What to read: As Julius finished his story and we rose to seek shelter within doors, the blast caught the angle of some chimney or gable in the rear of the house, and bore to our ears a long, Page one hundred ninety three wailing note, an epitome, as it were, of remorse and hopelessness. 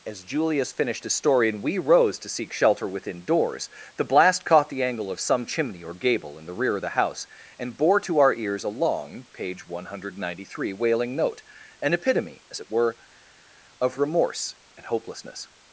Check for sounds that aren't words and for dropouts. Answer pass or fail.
pass